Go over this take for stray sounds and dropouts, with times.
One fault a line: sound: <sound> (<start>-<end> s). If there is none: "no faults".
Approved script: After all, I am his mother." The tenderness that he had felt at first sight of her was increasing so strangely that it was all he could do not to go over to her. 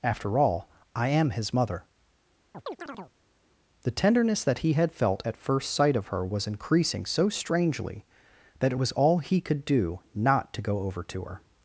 sound: chirp (2.5-3.1 s)